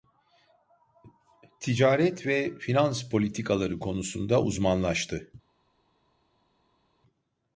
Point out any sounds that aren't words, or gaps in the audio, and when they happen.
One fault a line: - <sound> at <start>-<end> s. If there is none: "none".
none